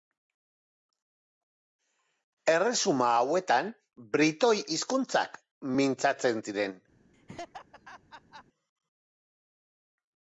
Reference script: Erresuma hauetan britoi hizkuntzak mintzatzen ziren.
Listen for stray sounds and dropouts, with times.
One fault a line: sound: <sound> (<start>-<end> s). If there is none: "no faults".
sound: laugh (7.1-8.4 s)